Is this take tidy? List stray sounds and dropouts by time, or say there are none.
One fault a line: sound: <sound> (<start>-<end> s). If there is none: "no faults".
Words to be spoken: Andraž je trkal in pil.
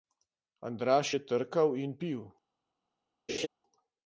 sound: laugh (3.3-3.5 s)